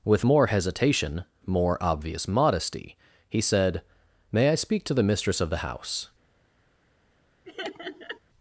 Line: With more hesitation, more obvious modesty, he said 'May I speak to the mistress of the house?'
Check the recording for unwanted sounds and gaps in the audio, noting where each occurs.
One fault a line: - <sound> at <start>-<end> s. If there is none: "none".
- laugh at 7.4-8.2 s